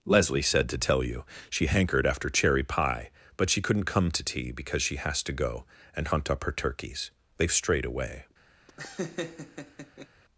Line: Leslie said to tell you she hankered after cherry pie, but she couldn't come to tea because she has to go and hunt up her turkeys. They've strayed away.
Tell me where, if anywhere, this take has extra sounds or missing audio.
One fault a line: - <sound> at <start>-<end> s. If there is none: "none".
- laugh at 8.7-10.1 s